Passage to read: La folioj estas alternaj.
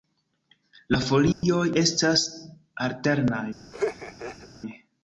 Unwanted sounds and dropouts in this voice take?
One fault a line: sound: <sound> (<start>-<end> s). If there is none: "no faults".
sound: dropout (1.3-1.4 s)
sound: laugh (3.7-4.5 s)